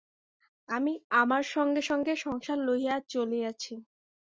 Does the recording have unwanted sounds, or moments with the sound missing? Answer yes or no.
no